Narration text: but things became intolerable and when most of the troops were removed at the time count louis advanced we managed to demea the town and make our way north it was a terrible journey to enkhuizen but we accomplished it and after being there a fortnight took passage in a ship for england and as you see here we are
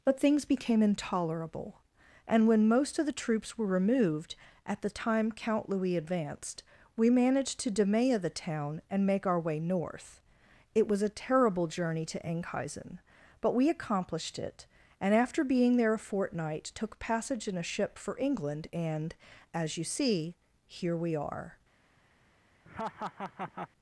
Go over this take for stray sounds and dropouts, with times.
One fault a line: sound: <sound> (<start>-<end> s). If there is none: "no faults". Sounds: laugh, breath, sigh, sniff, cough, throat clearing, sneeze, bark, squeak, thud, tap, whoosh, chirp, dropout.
sound: laugh (22.6-23.7 s)